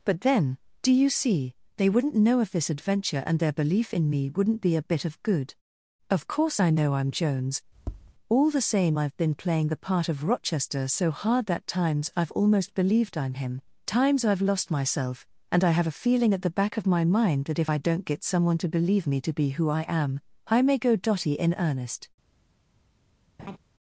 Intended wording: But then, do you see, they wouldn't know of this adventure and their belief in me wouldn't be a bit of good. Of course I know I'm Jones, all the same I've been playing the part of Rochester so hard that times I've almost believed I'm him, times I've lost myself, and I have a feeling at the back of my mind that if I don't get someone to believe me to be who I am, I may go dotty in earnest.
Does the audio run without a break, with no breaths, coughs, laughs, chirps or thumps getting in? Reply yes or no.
no